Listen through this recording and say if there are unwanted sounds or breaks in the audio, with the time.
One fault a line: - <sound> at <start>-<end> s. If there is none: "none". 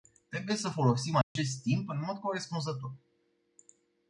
- dropout at 1.2-1.4 s